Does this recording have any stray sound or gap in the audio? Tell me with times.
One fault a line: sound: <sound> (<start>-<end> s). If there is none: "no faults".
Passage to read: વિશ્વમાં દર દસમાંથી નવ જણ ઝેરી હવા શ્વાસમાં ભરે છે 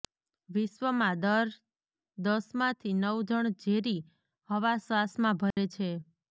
sound: dropout (5.5-5.6 s)